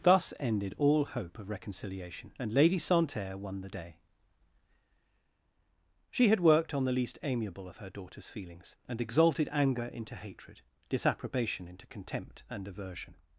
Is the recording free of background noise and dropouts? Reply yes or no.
yes